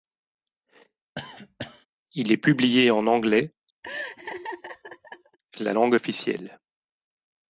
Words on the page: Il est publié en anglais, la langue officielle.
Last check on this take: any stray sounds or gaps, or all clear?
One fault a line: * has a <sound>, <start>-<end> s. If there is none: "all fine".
* has a cough, 1.2-1.9 s
* has a laugh, 3.8-5.4 s